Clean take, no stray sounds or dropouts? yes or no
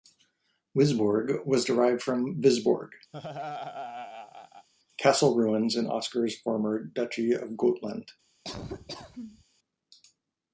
no